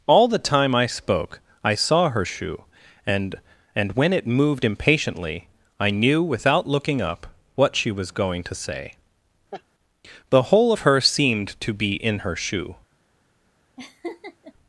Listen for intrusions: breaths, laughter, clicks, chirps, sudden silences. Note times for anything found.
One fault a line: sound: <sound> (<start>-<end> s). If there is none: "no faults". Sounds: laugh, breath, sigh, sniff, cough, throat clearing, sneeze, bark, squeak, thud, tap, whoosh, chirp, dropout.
sound: laugh (9.5-9.6 s)
sound: laugh (13.8-14.5 s)